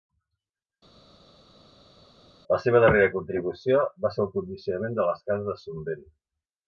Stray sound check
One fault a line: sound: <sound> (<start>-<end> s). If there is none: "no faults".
no faults